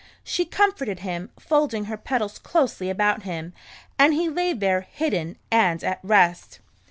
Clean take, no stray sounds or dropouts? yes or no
yes